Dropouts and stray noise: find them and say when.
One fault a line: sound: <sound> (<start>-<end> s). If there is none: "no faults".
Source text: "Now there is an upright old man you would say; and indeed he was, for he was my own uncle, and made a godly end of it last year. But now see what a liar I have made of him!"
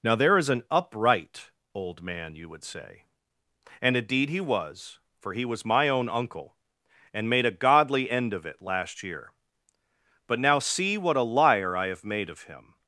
no faults